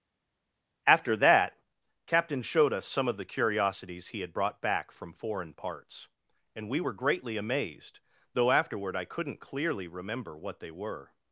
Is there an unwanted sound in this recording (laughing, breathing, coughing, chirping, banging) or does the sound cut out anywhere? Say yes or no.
no